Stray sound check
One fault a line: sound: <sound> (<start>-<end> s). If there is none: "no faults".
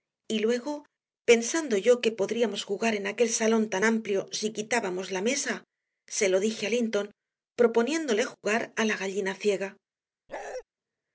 sound: bark (10.3-10.6 s)